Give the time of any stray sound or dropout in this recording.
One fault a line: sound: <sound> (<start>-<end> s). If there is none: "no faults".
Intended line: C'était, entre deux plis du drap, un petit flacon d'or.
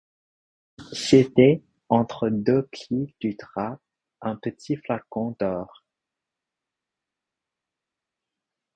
no faults